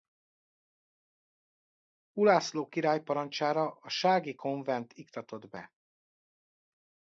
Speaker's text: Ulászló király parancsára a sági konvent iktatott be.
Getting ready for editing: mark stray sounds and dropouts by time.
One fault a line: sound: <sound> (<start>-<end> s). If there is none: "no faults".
no faults